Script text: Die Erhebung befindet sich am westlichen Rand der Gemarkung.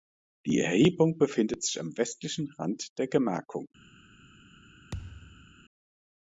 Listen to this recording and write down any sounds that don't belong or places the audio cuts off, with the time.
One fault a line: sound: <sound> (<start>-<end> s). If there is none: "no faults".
sound: thud (4.9-5.5 s)